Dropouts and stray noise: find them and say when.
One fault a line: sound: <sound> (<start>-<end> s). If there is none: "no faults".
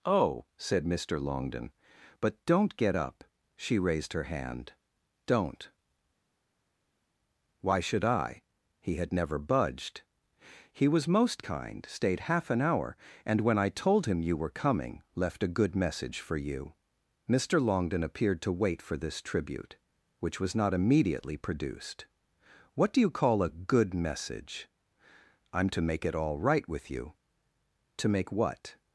no faults